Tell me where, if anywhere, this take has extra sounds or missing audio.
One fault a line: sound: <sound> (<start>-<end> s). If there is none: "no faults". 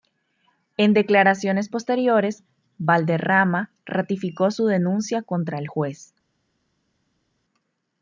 no faults